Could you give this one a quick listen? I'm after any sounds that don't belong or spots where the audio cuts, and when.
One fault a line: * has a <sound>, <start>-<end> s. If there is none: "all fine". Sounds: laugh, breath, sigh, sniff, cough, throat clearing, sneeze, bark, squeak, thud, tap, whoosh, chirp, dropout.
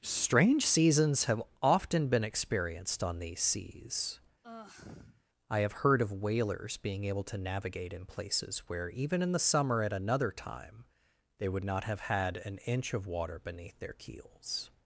* has a sigh, 4.4-5.2 s